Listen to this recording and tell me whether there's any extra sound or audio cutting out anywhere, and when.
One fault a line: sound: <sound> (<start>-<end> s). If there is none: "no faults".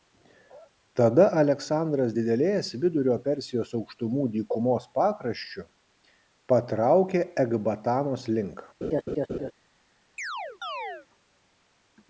sound: laugh (8.8-9.5 s)
sound: chirp (10.2-11.1 s)